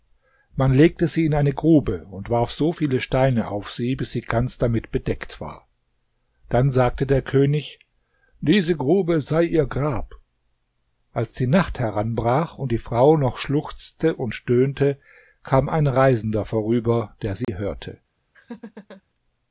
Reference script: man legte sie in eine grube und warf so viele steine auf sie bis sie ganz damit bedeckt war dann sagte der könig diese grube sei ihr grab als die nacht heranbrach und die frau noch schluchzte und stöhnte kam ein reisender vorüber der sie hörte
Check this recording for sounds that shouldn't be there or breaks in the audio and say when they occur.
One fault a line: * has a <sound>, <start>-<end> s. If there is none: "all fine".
* has a dropout, 17.4-17.5 s
* has a laugh, 18.3-19.0 s